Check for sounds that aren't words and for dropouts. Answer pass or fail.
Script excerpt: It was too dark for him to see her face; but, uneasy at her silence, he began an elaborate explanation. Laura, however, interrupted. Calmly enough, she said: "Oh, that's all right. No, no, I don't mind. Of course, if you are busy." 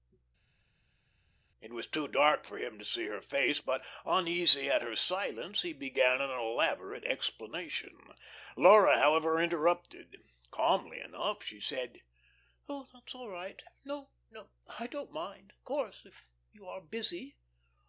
pass